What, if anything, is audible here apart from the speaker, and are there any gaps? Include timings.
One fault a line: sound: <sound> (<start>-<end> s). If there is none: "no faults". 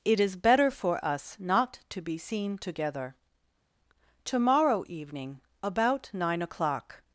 no faults